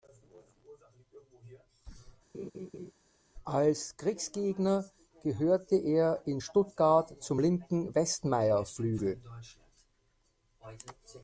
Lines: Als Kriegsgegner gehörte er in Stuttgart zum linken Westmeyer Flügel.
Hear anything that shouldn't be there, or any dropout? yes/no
yes